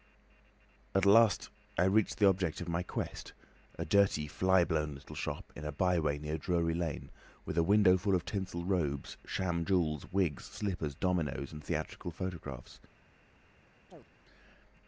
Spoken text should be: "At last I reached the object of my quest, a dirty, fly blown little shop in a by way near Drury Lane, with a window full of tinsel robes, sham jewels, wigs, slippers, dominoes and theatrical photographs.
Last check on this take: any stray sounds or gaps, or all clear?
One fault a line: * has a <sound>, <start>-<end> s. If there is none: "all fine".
* has a chirp, 13.9-14.1 s